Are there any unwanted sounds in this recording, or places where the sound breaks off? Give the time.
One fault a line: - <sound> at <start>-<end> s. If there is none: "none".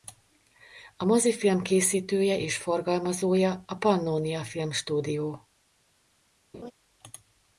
- laugh at 6.5-6.7 s